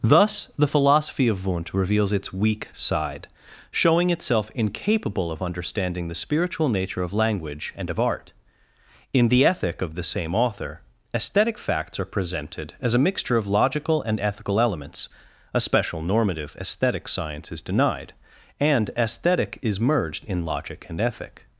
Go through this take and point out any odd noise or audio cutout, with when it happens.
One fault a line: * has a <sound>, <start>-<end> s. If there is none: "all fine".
all fine